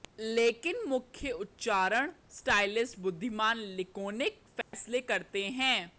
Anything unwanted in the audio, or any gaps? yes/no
yes